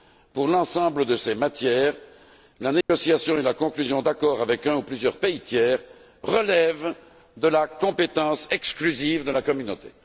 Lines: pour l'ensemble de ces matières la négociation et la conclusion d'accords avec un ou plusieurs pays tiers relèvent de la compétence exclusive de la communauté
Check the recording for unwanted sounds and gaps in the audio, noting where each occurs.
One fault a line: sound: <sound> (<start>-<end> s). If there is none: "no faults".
sound: dropout (2.8-2.9 s)